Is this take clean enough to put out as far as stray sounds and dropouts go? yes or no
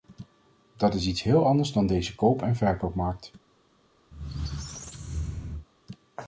no